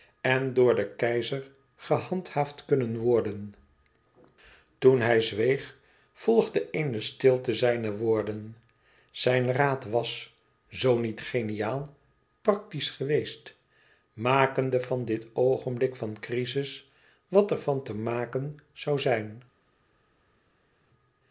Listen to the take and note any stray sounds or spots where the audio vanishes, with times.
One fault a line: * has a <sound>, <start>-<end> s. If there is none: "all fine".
all fine